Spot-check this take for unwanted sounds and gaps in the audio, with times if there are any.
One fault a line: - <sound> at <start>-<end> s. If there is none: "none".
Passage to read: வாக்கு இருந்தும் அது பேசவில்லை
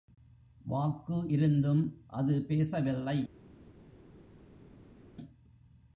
none